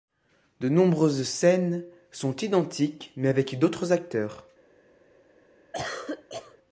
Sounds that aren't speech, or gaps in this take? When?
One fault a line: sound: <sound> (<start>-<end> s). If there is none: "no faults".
sound: cough (5.7-6.6 s)